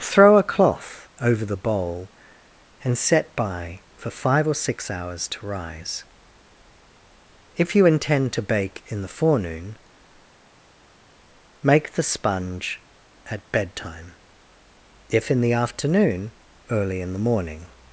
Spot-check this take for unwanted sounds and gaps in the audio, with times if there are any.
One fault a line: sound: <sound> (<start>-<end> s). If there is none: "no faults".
no faults